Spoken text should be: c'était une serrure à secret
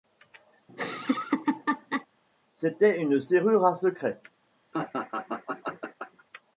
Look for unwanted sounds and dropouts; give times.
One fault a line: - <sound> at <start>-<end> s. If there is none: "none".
- laugh at 0.7-2.1 s
- laugh at 4.7-6.2 s